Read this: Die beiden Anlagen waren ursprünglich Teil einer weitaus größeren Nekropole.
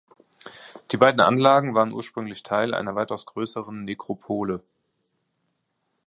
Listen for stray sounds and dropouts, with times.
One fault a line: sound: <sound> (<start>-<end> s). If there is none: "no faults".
no faults